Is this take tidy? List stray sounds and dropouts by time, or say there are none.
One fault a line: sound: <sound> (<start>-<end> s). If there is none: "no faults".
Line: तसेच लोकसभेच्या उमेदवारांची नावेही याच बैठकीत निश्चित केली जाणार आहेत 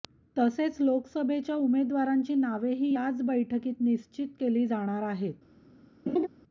sound: laugh (6.1-6.3 s)